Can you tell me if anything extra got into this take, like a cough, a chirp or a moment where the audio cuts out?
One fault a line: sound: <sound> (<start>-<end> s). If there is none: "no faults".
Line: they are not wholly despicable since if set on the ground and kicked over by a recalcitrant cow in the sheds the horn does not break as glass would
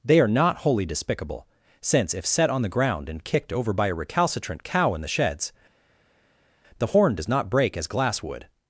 no faults